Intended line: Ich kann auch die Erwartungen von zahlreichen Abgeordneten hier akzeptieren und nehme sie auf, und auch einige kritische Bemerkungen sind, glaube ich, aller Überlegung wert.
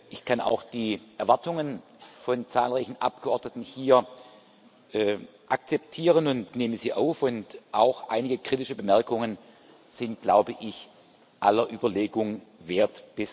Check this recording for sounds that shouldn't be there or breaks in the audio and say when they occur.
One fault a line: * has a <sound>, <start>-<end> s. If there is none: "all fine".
all fine